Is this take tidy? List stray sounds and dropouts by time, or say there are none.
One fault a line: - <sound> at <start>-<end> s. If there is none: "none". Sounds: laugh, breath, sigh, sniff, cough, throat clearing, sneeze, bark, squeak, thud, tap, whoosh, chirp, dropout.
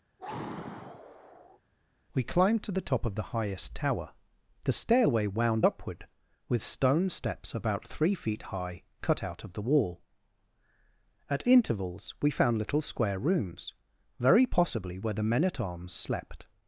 - sigh at 0.2-1.6 s